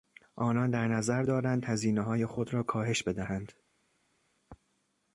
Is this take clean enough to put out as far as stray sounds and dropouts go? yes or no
yes